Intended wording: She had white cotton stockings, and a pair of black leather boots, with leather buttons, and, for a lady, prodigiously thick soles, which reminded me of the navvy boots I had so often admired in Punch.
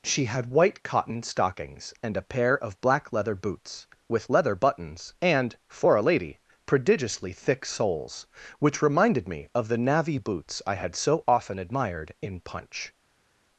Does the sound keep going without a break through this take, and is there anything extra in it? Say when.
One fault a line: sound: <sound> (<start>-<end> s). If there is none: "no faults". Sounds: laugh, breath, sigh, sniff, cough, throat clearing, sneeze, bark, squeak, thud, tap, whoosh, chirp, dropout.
no faults